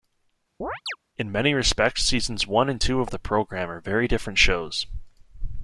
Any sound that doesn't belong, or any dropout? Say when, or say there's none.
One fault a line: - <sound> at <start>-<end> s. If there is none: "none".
- chirp at 0.6-1.0 s